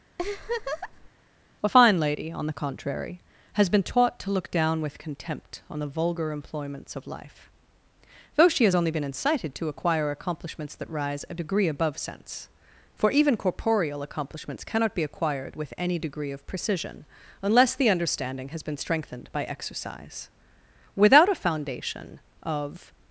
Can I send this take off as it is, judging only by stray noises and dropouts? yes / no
no